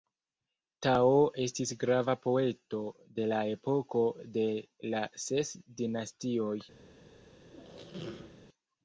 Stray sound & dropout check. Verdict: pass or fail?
fail